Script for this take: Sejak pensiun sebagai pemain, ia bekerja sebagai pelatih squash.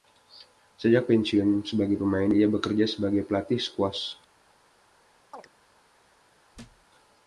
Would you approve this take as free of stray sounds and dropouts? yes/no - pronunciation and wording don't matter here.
no